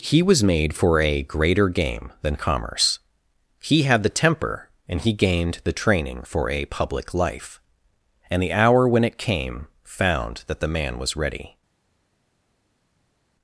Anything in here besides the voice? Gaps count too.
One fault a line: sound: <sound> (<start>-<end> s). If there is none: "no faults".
no faults